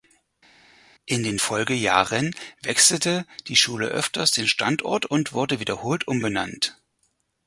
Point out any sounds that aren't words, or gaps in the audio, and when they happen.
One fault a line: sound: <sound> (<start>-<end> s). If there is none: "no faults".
no faults